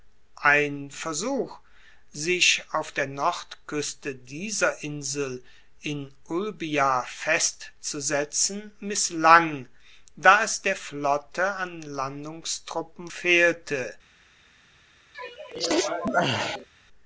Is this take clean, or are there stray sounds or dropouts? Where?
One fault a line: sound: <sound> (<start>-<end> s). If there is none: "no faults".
sound: sneeze (15.1-16.7 s)